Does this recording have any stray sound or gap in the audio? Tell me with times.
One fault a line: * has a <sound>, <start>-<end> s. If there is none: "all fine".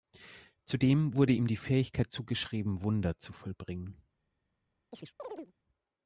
* has a chirp, 4.9-5.5 s